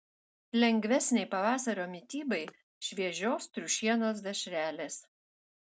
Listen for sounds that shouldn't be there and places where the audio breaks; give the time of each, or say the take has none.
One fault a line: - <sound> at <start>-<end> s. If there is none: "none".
none